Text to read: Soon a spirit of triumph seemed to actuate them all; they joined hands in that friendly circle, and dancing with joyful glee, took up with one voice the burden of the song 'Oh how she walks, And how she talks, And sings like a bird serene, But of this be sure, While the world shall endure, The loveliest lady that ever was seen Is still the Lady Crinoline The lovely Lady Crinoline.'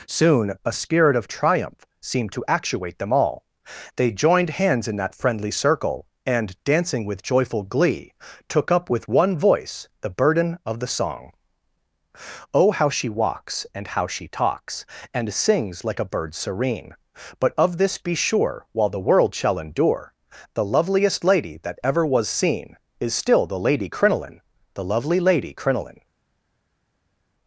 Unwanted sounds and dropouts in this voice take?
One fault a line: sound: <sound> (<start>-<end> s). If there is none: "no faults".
no faults